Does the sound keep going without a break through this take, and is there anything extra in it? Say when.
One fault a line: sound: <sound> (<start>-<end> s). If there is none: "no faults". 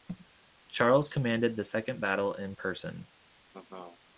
sound: laugh (3.5-4.0 s)